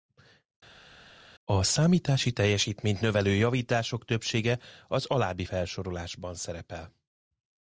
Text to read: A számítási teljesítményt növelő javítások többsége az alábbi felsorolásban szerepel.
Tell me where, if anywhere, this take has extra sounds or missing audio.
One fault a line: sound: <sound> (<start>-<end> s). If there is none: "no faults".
no faults